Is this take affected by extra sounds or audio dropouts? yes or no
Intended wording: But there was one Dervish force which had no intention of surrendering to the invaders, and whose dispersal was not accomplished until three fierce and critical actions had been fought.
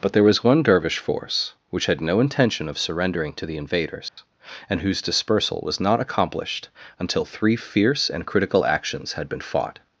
yes